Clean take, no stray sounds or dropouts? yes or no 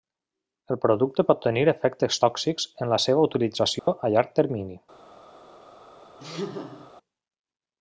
no